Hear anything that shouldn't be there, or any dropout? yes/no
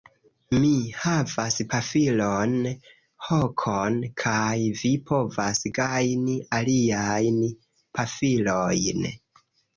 no